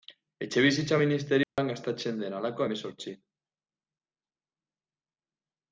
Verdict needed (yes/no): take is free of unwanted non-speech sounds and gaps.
no